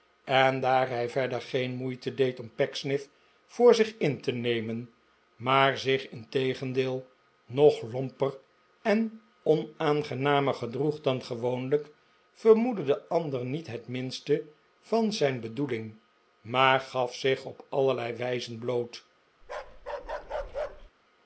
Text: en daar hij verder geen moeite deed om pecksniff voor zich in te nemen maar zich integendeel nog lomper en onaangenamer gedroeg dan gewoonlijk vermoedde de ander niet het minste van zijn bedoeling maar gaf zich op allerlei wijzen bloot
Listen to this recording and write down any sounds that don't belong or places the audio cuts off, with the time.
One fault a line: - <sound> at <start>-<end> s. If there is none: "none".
- bark at 19.4-20.9 s